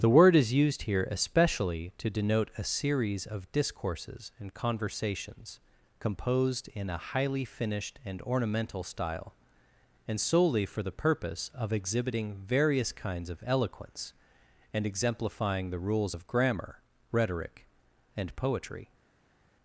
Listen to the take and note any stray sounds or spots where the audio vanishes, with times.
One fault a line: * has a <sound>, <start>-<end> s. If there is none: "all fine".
all fine